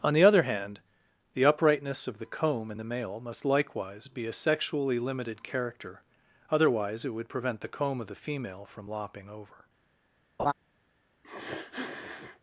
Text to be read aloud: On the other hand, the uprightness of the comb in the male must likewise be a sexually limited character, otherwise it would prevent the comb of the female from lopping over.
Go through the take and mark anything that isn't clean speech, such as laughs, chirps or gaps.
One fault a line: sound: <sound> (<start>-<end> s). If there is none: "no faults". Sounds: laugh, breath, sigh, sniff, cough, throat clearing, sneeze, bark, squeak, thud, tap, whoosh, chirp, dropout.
sound: laugh (10.4-10.5 s)
sound: sniff (11.2-12.4 s)